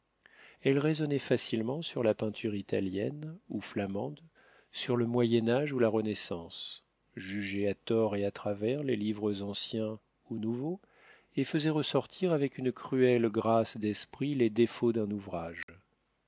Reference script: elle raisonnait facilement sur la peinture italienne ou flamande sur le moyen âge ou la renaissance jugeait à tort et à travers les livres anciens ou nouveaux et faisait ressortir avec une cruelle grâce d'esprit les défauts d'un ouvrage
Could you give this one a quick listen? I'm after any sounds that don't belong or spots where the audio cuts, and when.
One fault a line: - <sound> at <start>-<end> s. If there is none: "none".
- dropout at 15.6-15.7 s